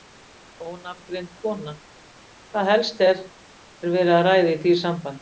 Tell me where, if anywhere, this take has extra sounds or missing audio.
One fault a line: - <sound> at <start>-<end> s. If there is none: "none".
none